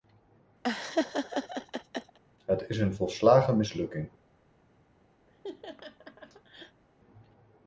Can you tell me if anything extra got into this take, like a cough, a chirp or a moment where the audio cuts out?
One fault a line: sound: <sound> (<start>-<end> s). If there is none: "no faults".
sound: laugh (0.6-2.2 s)
sound: laugh (5.3-6.8 s)